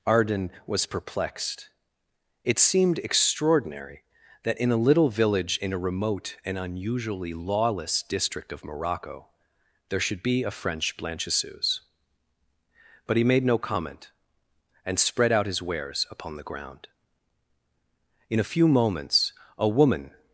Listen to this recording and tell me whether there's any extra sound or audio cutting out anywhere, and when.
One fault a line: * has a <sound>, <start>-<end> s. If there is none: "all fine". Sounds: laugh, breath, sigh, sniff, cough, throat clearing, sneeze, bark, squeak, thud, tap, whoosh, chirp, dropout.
all fine